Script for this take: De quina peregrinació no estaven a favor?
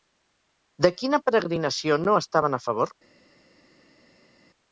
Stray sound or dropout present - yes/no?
no